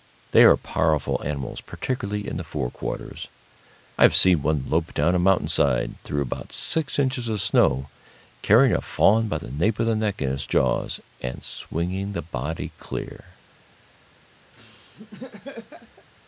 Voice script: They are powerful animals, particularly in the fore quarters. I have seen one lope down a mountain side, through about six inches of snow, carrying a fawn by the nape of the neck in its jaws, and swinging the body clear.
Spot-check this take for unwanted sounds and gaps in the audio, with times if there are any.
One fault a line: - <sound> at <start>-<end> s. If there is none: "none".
- laugh at 14.5-16.1 s